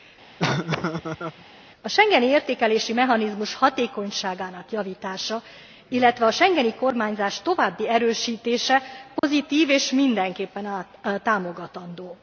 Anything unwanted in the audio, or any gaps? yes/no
yes